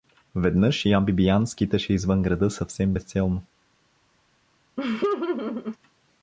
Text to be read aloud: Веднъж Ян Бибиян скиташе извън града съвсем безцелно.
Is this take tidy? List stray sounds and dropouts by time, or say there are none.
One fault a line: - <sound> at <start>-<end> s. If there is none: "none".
- laugh at 4.8-5.8 s